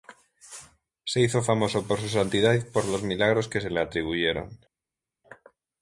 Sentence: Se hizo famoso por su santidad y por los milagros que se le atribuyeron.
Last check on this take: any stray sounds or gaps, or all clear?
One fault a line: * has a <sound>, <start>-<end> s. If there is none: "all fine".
all fine